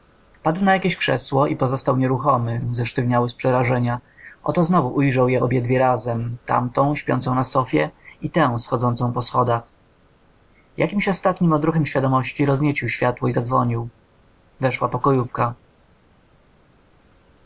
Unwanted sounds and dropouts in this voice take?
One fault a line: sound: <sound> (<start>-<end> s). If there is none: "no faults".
no faults